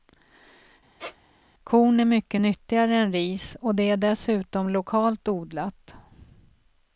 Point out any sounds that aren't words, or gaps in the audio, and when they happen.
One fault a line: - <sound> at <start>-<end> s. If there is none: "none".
- squeak at 1.0-1.2 s